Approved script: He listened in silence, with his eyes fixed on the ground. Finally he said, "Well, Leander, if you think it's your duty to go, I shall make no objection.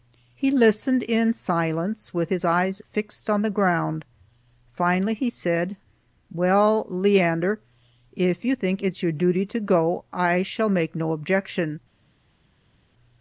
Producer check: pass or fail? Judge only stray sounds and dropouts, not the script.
pass